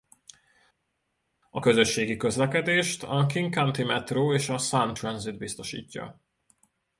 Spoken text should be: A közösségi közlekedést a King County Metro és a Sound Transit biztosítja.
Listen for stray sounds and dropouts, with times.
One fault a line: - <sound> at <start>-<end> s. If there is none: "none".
none